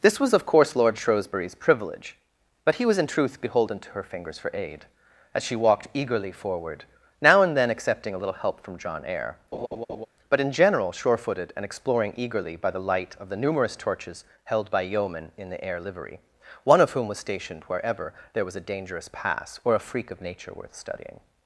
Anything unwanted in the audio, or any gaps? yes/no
yes